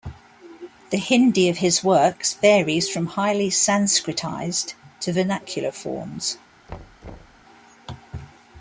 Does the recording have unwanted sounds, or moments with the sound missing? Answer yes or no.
yes